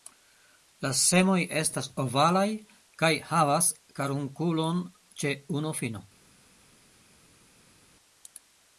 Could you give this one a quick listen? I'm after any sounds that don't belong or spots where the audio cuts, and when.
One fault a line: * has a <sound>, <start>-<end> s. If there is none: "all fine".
all fine